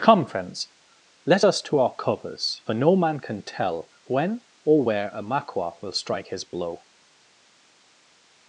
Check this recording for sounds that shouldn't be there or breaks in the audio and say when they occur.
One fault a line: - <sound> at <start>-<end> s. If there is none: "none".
none